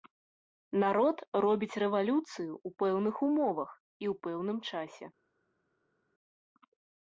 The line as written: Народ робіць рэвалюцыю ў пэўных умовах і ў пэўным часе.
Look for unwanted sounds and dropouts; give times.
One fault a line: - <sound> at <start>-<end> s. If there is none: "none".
none